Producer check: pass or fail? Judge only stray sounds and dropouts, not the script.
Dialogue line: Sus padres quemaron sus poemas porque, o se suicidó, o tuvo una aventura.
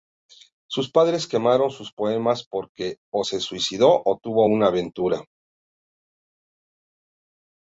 pass